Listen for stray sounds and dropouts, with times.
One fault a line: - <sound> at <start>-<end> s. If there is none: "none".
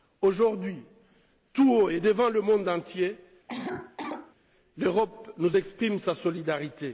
- cough at 3.5-4.4 s